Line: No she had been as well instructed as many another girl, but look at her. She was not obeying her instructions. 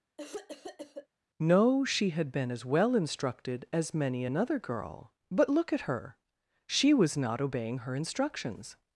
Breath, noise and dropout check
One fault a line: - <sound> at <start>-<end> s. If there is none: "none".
- cough at 0.2-1.1 s